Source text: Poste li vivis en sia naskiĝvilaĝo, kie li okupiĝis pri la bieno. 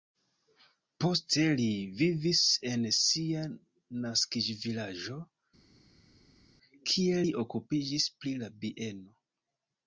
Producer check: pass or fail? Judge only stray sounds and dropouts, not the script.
pass